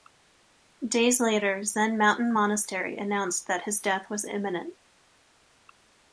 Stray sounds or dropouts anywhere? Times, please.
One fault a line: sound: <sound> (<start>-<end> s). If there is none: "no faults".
no faults